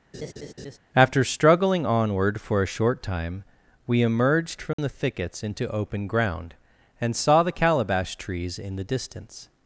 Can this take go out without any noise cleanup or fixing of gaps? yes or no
no